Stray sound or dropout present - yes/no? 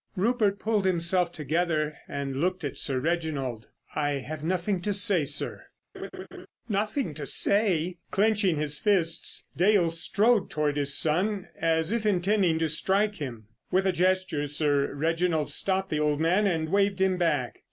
yes